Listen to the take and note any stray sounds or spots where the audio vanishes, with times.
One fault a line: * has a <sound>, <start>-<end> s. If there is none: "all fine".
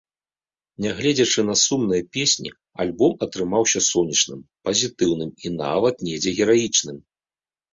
all fine